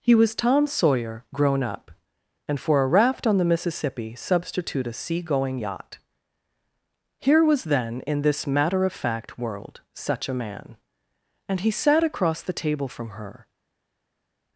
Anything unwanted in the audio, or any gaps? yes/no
no